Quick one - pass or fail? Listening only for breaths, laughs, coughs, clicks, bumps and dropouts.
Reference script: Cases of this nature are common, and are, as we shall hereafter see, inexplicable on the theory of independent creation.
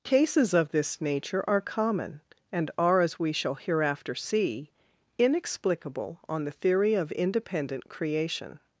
pass